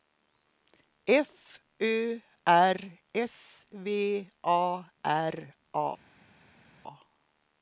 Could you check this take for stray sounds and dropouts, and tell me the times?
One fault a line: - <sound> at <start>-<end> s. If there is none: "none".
none